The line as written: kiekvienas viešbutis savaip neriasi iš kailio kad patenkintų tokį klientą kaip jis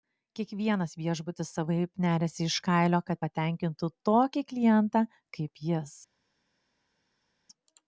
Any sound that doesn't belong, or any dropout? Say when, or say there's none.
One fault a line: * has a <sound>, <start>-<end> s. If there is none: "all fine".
all fine